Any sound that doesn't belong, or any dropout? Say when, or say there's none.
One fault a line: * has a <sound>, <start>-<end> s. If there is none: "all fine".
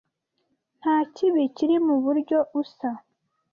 all fine